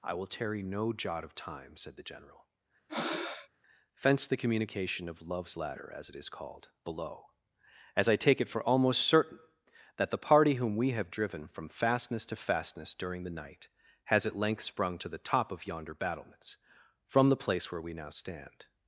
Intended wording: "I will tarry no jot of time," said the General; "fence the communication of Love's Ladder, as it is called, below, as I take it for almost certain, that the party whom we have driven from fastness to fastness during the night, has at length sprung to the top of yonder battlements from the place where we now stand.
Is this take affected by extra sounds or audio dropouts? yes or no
yes